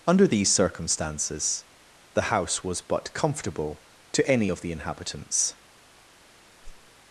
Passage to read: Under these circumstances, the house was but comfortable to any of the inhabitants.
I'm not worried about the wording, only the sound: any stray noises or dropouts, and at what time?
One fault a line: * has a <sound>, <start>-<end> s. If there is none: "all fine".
* has a whoosh, 6.6-6.9 s